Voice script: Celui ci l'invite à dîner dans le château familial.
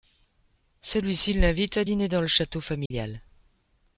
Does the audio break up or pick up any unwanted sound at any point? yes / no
yes